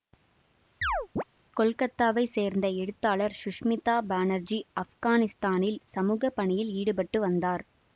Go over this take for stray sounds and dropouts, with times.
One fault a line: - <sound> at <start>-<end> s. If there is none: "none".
- chirp at 0.8-1.2 s